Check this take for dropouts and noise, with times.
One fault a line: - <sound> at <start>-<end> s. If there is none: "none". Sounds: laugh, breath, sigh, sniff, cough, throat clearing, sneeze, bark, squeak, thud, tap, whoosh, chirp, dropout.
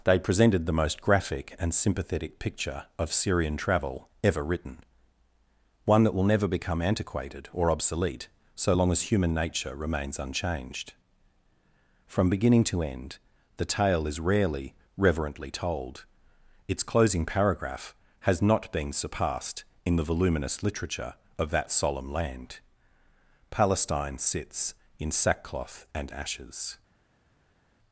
none